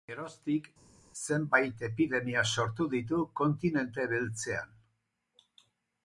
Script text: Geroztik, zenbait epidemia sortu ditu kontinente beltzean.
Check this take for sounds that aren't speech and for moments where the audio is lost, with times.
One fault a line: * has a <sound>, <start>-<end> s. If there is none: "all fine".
all fine